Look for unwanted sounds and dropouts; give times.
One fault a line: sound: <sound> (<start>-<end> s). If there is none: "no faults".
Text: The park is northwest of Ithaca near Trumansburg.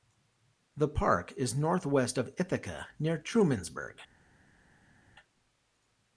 no faults